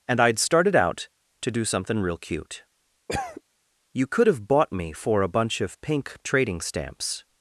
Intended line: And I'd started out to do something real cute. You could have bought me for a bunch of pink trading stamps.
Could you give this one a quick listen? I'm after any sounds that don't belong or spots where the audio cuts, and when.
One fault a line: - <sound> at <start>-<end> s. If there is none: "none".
- cough at 3.1-3.4 s